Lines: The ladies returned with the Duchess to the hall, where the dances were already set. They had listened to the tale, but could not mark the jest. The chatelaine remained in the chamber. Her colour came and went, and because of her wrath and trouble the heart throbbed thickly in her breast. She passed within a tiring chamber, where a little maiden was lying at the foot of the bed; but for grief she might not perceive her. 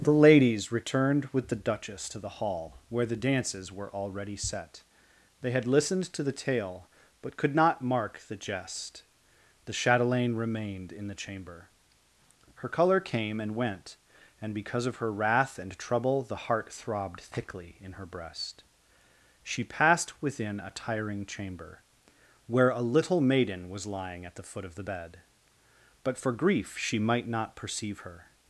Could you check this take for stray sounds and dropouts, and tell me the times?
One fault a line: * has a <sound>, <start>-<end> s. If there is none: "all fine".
all fine